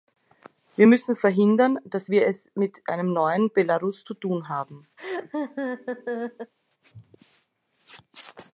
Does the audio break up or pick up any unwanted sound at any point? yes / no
yes